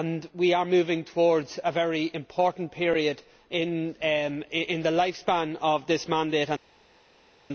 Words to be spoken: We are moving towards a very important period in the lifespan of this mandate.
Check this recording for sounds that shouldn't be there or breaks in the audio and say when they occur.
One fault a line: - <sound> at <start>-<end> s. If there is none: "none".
none